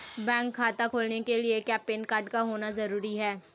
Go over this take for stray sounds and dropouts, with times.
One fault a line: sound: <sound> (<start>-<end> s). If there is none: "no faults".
no faults